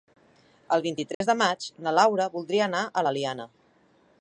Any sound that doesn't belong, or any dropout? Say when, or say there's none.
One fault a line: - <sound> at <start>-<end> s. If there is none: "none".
- dropout at 1.1-1.2 s